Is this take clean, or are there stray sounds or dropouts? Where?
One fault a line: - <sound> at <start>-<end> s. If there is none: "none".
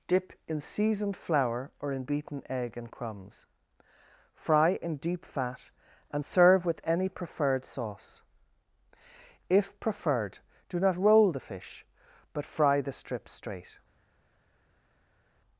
none